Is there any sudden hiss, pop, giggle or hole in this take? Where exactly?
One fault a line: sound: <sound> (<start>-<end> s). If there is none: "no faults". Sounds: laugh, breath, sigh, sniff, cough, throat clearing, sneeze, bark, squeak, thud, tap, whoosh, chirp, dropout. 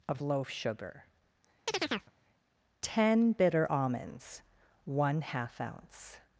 sound: chirp (1.7-2.1 s)